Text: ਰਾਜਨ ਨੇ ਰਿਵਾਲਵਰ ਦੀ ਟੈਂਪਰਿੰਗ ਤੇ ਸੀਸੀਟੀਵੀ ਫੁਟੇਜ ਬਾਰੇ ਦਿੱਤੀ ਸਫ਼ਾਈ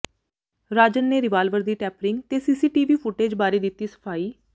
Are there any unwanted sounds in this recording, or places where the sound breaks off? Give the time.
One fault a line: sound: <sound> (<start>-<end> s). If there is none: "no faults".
no faults